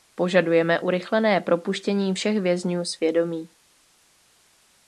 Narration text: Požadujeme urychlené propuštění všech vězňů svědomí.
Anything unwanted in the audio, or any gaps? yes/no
no